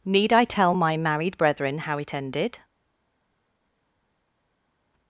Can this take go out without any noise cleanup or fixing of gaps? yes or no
yes